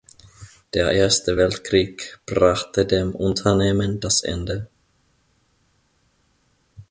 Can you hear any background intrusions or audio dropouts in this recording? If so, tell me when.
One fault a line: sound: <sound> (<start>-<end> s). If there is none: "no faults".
no faults